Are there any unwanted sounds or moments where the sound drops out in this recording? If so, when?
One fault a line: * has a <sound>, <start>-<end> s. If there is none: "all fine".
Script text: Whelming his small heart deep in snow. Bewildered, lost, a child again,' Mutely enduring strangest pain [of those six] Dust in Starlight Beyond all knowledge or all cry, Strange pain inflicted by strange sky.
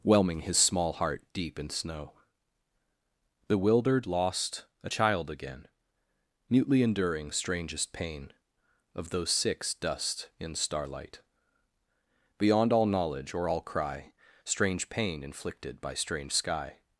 all fine